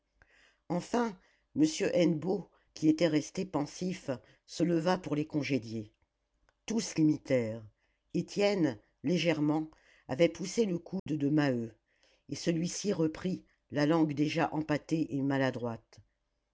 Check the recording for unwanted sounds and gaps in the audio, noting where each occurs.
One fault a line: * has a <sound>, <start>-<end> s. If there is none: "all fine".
* has a dropout, 11.0-11.1 s